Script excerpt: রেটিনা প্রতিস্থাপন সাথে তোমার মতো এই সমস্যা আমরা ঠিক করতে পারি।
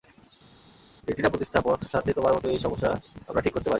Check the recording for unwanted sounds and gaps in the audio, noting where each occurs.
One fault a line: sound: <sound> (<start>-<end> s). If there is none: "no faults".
no faults